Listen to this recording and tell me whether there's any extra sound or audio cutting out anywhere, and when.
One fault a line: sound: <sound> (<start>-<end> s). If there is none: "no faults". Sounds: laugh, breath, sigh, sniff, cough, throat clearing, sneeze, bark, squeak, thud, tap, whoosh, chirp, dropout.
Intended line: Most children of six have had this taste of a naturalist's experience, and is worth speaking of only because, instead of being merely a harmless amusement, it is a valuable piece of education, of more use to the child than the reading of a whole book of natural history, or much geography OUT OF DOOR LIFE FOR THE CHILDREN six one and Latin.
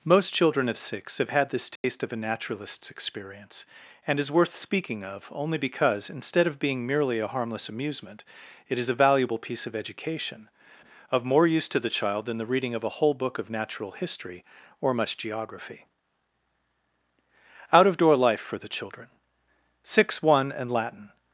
sound: dropout (1.8-1.8 s)